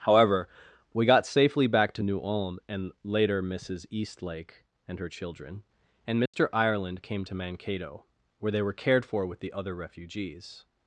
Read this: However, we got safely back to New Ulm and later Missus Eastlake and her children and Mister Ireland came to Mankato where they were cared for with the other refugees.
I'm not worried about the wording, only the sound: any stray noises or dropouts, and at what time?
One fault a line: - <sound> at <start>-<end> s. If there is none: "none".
- dropout at 6.3-6.3 s